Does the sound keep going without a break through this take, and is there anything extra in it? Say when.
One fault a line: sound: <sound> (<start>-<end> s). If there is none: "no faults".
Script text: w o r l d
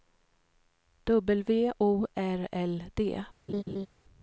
sound: laugh (3.5-3.9 s)